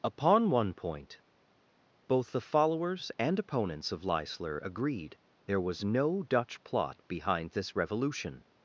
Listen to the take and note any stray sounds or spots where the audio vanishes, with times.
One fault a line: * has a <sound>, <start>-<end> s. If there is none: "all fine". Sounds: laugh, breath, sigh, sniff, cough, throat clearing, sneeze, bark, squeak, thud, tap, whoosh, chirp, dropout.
all fine